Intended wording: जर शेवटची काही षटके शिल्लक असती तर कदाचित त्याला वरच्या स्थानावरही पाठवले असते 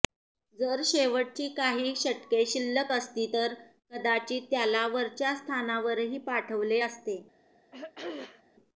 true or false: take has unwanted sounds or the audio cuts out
true